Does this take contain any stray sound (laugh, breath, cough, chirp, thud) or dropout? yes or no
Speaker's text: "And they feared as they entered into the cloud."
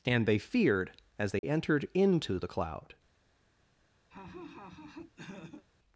yes